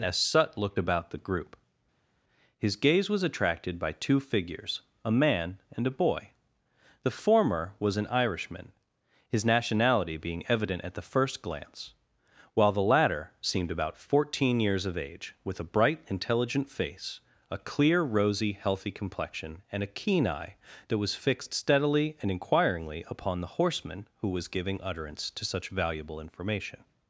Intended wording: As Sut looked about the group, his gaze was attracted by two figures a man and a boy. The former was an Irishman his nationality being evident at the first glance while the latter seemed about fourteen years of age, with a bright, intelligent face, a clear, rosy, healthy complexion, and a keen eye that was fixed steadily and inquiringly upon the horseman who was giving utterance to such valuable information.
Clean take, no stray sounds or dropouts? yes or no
yes